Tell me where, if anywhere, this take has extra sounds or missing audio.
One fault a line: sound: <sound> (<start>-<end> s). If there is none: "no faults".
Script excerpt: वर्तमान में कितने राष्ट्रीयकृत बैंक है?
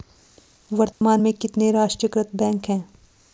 sound: dropout (0.9-1.0 s)